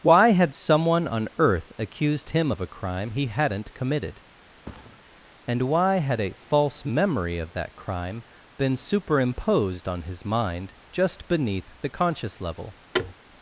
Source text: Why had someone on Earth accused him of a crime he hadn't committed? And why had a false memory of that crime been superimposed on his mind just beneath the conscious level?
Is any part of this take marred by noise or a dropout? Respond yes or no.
yes